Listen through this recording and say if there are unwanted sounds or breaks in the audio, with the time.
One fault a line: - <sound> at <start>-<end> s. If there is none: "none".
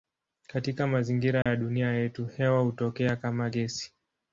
- dropout at 1.4-1.5 s